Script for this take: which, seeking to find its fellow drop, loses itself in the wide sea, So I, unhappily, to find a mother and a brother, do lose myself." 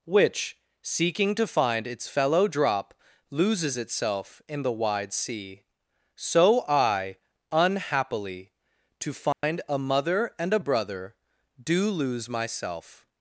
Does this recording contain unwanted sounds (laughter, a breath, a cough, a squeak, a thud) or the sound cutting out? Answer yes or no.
yes